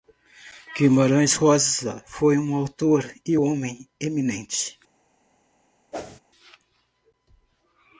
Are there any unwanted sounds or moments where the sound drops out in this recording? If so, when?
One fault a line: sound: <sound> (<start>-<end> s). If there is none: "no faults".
sound: whoosh (5.9-6.2 s)